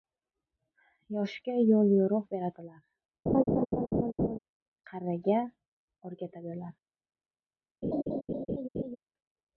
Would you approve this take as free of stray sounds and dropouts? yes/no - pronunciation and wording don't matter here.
no